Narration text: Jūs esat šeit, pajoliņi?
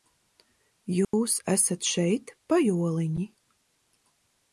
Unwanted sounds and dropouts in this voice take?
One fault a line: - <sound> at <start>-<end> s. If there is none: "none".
- dropout at 1.0-1.1 s